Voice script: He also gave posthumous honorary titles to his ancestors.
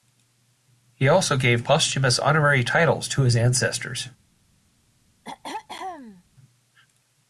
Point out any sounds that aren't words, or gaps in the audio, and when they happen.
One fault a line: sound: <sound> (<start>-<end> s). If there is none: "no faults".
sound: throat clearing (5.2-6.2 s)